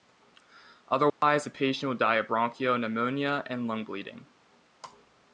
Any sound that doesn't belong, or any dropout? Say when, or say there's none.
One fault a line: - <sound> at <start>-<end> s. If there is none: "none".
- dropout at 1.1-1.2 s